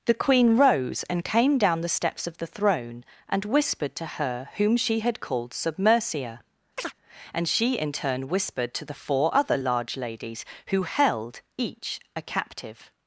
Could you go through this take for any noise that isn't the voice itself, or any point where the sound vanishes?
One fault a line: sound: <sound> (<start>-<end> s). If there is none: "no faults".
sound: chirp (6.8-6.9 s)